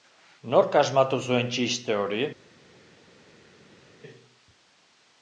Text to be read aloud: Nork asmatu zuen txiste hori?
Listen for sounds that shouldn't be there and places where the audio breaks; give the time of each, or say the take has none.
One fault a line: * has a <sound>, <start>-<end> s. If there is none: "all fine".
all fine